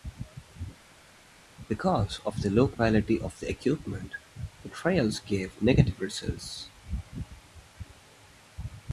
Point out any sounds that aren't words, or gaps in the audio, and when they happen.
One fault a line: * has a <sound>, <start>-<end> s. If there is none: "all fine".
all fine